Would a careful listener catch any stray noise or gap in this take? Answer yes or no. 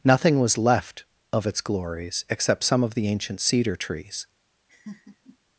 yes